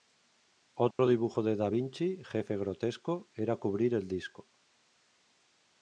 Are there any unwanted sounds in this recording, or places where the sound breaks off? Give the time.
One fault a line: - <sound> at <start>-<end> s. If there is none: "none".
- dropout at 0.9-1.0 s